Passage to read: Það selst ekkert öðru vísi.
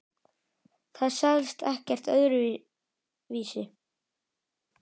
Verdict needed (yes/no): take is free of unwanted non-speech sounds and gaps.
yes